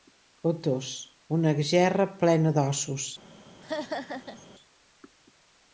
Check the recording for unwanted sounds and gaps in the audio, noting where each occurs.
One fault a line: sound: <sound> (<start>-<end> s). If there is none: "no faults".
sound: laugh (3.6-4.5 s)